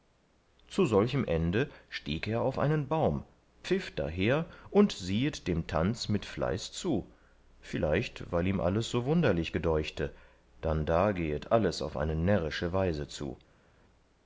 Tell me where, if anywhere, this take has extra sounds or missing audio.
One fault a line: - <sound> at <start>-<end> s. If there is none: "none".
none